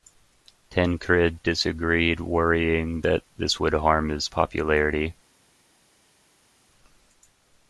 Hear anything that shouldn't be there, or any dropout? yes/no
no